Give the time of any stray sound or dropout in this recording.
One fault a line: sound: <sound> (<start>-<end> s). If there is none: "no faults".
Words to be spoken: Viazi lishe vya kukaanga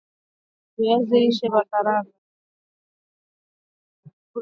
no faults